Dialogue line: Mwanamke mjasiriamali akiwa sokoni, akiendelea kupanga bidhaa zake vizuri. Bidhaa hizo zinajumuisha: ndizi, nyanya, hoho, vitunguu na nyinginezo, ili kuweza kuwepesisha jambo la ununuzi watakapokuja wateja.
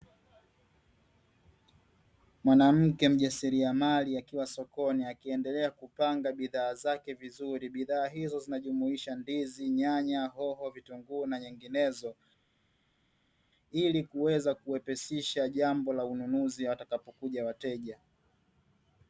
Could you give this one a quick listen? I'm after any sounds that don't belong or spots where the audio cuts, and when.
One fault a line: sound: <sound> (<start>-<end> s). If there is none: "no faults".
no faults